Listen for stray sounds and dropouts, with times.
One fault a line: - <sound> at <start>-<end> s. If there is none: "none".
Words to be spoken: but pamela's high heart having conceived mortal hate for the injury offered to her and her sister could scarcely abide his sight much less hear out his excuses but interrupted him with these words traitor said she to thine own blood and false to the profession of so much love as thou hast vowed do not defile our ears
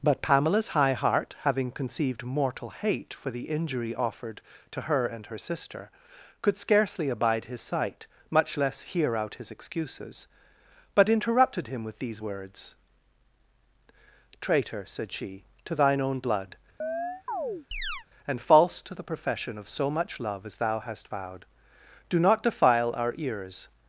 - chirp at 16.8-18.1 s